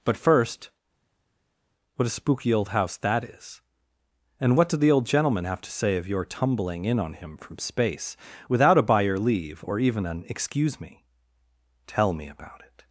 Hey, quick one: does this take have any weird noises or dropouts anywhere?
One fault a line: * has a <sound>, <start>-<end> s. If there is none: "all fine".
all fine